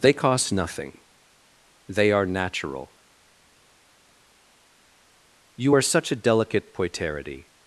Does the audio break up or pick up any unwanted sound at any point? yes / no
no